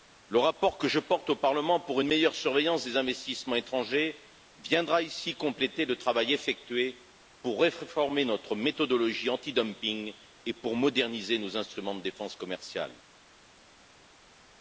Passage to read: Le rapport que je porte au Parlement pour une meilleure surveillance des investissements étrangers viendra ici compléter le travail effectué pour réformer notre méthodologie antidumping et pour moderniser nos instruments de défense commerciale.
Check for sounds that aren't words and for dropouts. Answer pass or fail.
pass